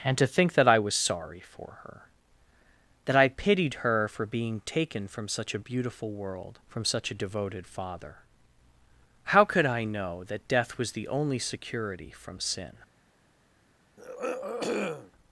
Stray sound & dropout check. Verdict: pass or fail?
fail